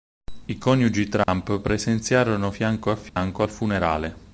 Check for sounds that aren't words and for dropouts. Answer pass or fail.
fail